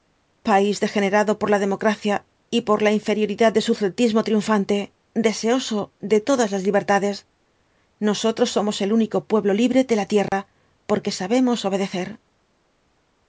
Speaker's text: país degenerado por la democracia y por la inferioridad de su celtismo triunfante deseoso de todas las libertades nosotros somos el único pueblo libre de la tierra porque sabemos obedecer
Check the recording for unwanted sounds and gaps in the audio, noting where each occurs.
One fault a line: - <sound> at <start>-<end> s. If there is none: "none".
- dropout at 10.3-10.3 s